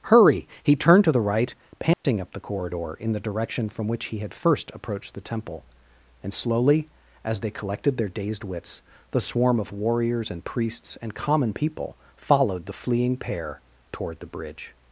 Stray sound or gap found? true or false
true